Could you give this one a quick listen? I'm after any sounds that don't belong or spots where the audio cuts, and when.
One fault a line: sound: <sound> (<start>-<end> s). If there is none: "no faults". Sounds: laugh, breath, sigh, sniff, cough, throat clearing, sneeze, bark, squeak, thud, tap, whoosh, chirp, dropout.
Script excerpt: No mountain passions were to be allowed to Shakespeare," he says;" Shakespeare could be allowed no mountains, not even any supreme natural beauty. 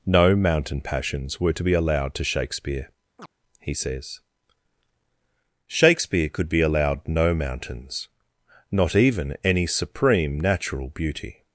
sound: chirp (3.2-3.3 s)